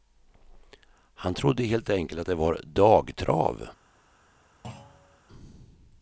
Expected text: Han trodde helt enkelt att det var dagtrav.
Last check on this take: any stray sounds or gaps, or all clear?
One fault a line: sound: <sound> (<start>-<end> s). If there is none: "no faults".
sound: thud (4.6-5.2 s)